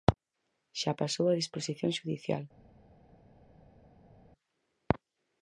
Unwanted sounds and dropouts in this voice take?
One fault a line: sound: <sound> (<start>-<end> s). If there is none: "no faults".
no faults